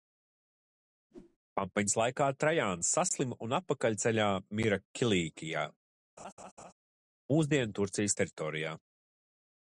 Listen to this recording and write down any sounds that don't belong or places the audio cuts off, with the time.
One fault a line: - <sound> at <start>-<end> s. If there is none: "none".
- whoosh at 1.1-1.4 s
- laugh at 6.2-6.7 s